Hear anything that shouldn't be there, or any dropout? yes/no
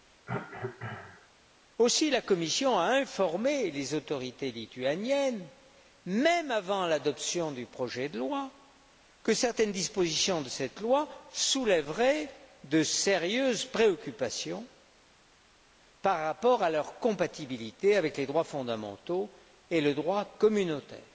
yes